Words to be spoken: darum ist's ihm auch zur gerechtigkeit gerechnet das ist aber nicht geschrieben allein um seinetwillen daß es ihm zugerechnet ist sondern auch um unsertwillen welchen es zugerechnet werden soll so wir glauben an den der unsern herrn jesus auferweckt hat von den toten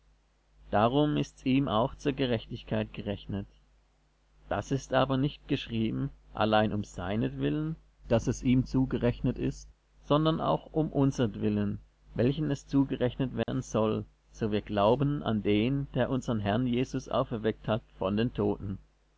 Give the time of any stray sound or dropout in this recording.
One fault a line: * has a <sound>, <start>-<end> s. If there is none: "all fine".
* has a dropout, 13.4-13.5 s